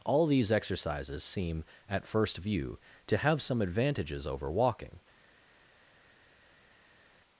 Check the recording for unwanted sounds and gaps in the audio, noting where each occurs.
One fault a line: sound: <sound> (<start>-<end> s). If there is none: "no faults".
no faults